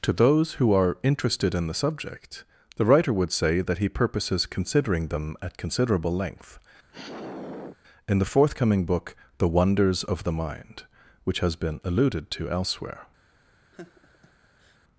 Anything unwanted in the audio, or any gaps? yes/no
yes